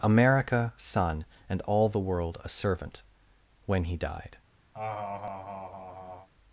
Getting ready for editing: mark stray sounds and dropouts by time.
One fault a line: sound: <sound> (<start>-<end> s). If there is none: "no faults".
sound: laugh (4.7-6.3 s)